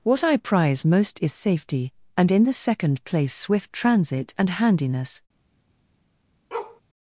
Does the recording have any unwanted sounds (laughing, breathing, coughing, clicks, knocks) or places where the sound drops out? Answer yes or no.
yes